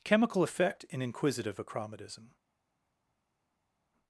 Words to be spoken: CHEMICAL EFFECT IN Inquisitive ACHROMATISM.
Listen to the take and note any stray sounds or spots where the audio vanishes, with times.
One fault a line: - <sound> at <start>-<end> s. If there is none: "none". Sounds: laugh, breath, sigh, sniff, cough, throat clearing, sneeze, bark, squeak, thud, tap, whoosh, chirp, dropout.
none